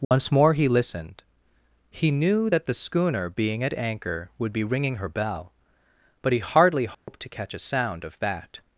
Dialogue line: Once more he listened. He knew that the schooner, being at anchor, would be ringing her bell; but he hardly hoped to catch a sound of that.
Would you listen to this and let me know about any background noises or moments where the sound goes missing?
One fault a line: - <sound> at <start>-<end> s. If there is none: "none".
- dropout at 0.0-0.1 s
- dropout at 6.9-7.1 s